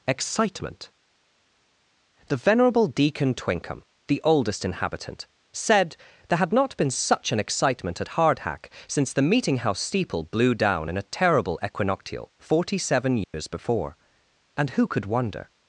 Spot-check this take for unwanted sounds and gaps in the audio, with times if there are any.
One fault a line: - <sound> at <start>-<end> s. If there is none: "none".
- dropout at 13.2-13.3 s